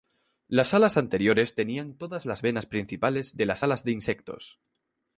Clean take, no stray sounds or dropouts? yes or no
yes